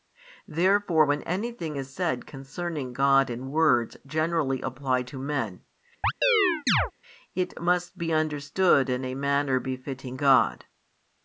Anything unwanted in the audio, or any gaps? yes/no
yes